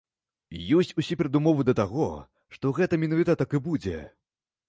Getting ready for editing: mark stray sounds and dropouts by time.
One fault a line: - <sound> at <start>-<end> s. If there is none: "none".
none